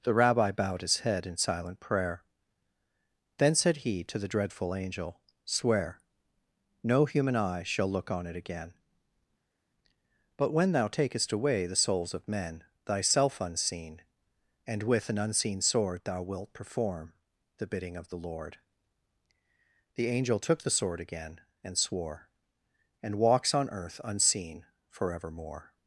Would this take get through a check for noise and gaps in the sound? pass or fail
pass